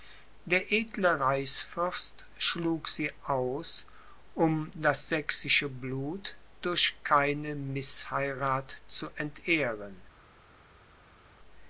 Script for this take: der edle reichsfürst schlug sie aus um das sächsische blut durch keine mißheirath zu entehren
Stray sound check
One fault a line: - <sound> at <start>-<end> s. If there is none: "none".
none